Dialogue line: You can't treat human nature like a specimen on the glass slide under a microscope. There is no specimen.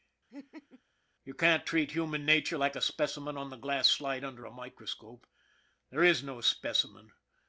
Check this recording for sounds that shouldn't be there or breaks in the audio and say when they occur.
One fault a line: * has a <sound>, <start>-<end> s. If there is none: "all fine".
* has a laugh, 0.3-0.8 s